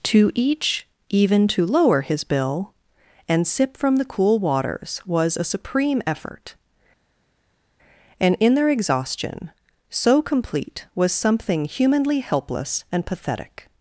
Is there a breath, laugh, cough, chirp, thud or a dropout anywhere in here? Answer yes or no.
no